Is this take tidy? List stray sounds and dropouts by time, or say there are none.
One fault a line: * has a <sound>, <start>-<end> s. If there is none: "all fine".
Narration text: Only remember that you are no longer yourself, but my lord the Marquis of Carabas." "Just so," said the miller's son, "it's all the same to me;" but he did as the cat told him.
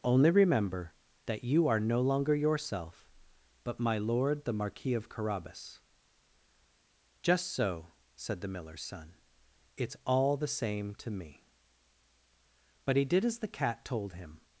all fine